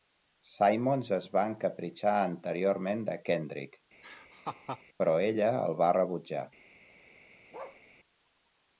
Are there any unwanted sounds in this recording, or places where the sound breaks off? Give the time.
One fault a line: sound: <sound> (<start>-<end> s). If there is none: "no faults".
sound: laugh (4.0-4.8 s)
sound: bark (7.5-7.8 s)